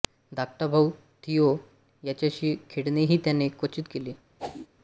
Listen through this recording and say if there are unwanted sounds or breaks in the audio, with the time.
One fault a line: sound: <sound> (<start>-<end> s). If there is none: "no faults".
sound: whoosh (4.4-4.7 s)